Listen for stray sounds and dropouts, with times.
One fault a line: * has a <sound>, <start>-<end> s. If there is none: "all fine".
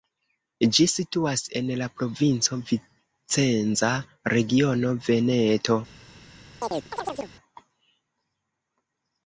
* has a chirp, 6.6-7.3 s